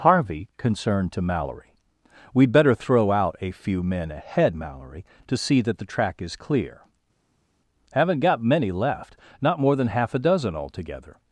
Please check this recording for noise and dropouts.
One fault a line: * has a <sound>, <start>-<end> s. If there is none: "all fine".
all fine